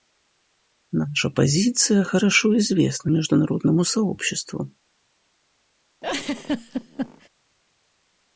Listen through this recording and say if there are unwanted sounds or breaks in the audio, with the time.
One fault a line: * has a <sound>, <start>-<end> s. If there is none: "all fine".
* has a laugh, 6.0-7.3 s